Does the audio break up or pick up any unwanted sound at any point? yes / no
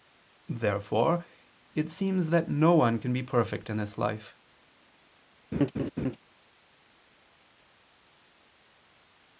yes